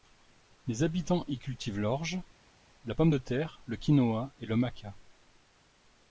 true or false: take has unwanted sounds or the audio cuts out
false